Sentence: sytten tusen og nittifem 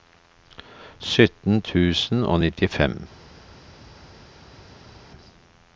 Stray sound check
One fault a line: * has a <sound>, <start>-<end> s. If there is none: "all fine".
all fine